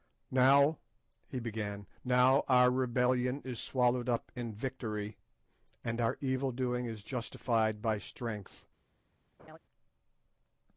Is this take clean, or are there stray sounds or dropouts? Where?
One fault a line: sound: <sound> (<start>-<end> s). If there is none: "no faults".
sound: laugh (9.4-9.6 s)